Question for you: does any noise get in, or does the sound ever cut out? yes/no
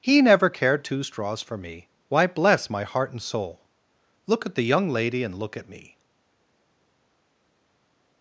no